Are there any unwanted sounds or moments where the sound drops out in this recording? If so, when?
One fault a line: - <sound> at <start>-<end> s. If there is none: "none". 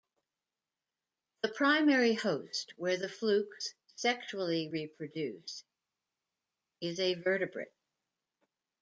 none